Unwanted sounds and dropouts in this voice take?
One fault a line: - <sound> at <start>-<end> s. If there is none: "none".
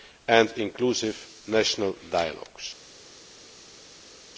none